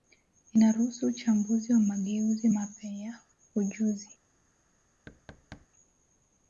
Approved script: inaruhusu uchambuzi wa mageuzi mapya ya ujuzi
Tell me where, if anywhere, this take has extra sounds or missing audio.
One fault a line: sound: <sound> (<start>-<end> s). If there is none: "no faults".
sound: thud (5.1-5.7 s)